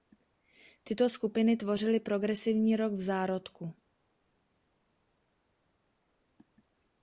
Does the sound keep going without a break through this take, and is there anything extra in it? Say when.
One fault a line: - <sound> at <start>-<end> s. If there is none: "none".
none